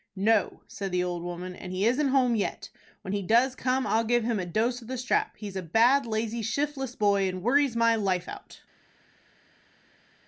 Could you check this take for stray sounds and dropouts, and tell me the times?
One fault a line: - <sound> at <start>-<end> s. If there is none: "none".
none